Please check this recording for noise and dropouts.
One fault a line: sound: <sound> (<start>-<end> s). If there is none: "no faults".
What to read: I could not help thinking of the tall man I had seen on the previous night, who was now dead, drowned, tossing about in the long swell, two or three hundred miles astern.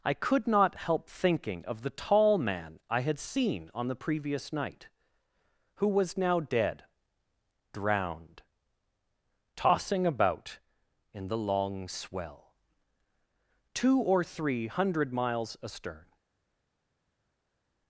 no faults